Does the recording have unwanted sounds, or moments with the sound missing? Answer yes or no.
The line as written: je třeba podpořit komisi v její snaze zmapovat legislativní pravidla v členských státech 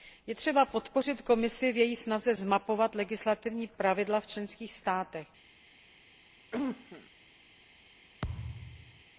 yes